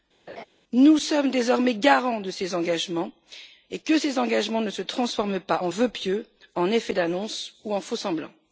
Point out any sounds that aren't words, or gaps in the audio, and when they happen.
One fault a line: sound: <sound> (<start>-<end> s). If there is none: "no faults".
sound: laugh (0.3-0.4 s)